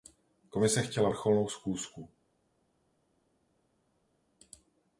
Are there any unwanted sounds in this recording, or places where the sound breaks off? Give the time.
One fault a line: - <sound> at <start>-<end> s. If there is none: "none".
none